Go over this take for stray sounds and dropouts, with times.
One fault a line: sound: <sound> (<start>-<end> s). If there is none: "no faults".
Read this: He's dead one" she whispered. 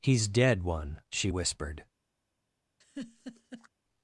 sound: laugh (2.8-3.7 s)